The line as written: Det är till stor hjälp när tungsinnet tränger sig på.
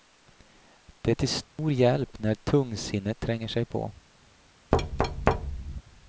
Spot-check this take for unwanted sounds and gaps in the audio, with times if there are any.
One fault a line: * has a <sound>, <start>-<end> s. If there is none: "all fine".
* has a dropout, 1.4-1.6 s
* has a thud, 4.7-5.8 s